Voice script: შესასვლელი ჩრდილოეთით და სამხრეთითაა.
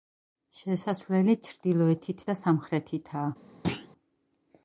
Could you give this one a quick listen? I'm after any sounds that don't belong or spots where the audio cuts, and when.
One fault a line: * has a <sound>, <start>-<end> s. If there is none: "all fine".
* has a thud, 3.6-3.9 s